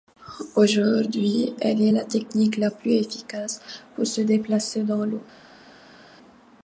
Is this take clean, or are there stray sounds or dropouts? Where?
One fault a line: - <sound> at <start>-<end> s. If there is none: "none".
none